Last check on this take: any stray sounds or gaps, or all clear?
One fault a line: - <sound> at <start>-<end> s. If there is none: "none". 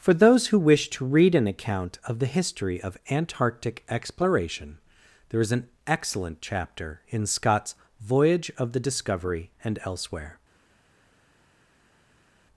none